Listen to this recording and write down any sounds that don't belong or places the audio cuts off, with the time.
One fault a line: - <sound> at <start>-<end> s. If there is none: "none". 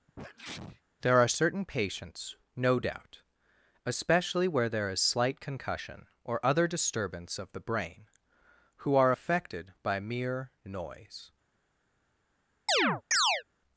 - sneeze at 0.1-0.8 s
- chirp at 12.7-13.4 s